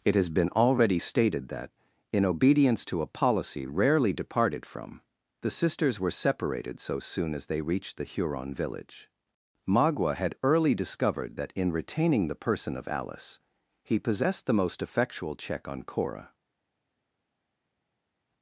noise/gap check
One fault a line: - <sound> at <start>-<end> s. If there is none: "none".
none